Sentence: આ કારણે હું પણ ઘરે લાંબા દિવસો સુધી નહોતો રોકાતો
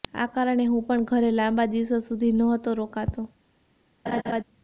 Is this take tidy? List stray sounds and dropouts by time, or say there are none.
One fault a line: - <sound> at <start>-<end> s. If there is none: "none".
- laugh at 4.1-4.4 s